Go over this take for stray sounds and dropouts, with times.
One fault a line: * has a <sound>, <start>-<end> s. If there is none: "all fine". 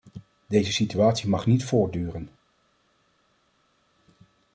all fine